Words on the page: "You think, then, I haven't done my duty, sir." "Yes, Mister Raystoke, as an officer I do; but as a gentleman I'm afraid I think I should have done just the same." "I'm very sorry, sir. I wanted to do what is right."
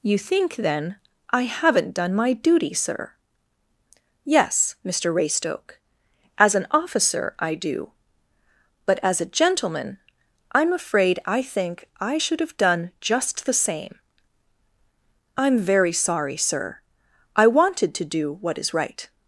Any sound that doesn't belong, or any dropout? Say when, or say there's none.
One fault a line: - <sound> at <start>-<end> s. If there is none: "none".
none